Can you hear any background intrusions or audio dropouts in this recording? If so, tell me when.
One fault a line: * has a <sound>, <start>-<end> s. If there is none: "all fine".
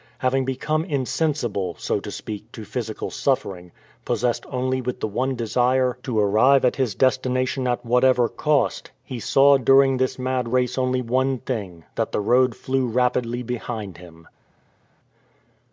all fine